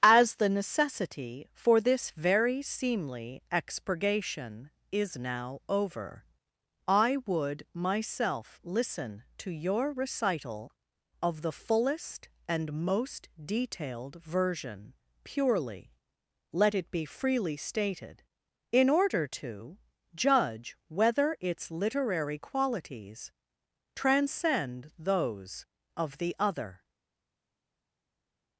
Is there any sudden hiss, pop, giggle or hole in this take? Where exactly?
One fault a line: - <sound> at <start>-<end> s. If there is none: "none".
none